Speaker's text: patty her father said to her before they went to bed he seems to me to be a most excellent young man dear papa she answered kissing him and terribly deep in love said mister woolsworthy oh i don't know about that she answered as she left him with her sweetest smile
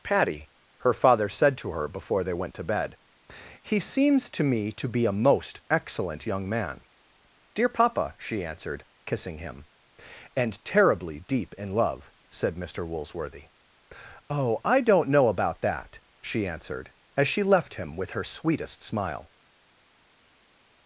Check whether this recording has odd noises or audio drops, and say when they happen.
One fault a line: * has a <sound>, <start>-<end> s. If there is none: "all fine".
all fine